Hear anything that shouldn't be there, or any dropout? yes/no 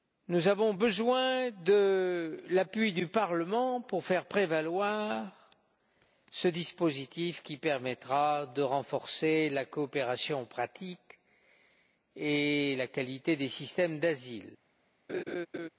yes